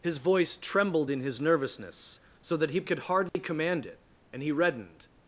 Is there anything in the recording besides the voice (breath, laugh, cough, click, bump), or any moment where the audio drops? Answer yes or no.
yes